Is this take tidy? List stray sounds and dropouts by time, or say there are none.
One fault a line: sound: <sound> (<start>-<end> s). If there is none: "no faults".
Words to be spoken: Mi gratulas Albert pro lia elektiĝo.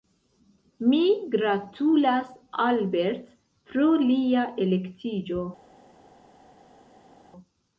no faults